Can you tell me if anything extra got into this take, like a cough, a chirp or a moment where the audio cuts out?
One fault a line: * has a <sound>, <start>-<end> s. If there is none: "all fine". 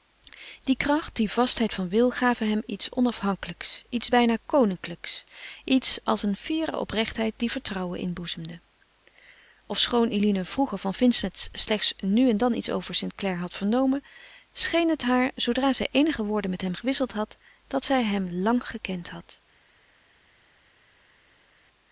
all fine